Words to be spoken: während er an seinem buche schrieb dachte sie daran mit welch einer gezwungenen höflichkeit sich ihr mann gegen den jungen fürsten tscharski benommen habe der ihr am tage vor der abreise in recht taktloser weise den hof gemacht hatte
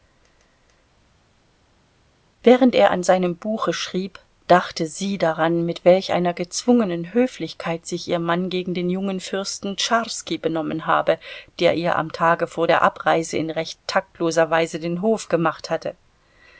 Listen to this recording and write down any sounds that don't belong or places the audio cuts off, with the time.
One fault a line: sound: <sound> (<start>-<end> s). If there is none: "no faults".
no faults